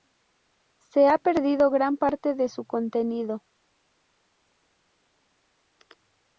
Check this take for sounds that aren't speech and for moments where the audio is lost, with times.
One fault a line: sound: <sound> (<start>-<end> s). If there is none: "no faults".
no faults